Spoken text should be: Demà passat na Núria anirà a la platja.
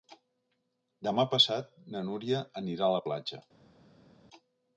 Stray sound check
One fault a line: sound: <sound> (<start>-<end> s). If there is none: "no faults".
no faults